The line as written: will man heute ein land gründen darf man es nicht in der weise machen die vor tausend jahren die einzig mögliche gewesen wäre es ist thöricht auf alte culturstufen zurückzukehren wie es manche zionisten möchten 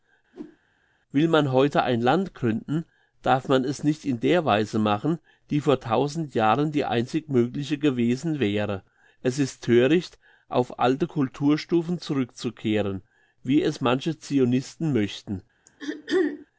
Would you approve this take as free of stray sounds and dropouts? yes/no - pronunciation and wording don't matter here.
no